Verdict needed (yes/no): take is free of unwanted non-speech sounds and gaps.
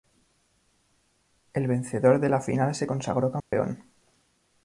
no